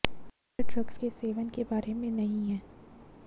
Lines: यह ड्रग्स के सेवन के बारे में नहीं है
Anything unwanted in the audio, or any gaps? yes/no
no